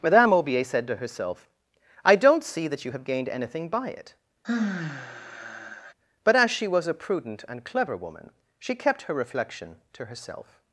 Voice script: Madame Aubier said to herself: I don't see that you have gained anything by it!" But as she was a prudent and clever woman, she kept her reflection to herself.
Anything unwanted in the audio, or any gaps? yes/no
yes